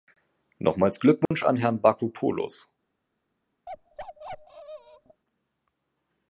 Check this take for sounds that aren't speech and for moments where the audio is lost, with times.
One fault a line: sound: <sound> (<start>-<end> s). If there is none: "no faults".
sound: dropout (1.2-1.3 s)
sound: bark (3.7-5.2 s)